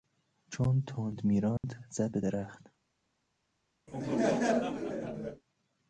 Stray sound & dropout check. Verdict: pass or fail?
fail